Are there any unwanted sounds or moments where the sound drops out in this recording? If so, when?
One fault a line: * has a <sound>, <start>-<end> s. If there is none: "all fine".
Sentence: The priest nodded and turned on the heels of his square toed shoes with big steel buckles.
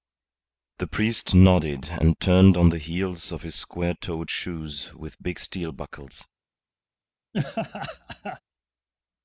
* has a laugh, 7.3-8.4 s